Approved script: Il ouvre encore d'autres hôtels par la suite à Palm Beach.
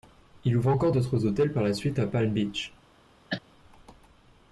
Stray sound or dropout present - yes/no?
yes